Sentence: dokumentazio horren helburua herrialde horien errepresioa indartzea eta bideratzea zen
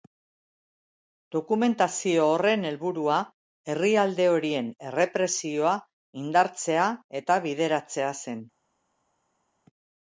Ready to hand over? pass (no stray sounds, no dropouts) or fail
pass